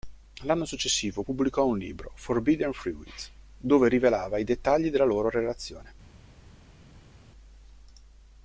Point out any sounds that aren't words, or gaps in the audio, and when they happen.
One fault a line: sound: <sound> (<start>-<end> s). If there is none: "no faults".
no faults